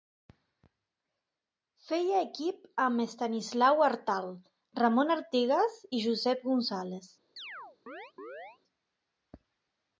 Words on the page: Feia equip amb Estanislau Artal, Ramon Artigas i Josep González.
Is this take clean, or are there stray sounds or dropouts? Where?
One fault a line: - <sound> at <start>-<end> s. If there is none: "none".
- chirp at 7.4-8.6 s